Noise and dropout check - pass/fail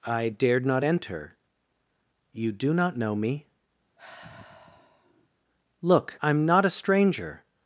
fail